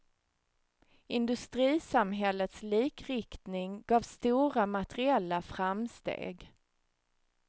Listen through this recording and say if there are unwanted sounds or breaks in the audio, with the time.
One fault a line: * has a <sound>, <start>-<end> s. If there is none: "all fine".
all fine